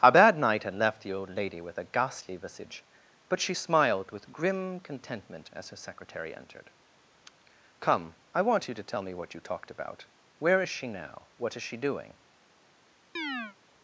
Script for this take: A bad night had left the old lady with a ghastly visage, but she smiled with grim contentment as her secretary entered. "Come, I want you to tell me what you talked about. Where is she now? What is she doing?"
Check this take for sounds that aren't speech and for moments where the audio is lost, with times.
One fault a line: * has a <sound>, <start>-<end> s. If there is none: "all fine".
* has a chirp, 13.2-13.6 s